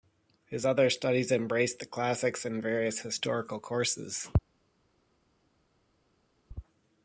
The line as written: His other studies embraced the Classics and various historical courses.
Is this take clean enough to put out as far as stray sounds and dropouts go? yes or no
yes